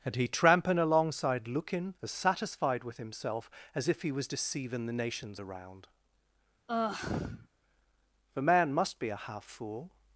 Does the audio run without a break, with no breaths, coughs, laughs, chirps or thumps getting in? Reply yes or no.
no